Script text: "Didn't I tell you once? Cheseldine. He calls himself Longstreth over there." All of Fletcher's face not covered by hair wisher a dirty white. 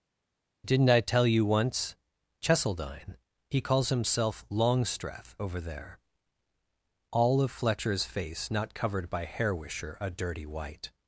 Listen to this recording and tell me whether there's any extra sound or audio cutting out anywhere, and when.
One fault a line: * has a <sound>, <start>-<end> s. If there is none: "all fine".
all fine